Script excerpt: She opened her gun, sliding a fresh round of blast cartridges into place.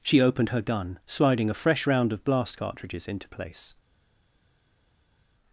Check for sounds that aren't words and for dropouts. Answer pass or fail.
pass